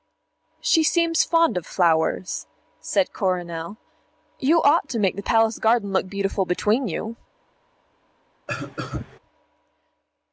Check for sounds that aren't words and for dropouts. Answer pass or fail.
fail